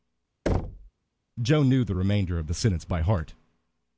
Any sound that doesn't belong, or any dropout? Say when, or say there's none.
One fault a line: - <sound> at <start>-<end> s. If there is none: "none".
- thud at 0.5-0.9 s